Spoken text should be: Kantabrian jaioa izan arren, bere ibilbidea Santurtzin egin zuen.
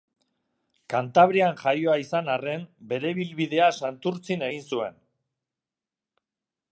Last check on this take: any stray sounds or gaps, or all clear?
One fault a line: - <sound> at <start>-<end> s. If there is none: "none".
none